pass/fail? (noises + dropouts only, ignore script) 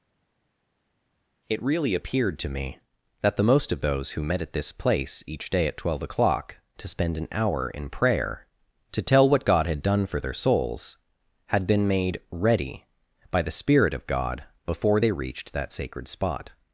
pass